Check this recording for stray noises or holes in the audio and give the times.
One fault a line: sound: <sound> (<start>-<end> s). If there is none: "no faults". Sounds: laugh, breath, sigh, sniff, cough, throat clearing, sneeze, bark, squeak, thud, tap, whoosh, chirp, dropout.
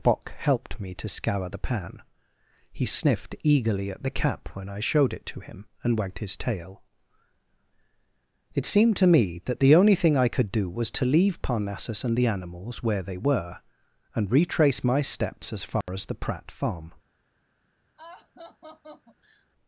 sound: dropout (15.8-15.9 s)
sound: laugh (18.0-19.5 s)